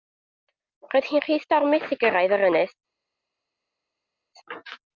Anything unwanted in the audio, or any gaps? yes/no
no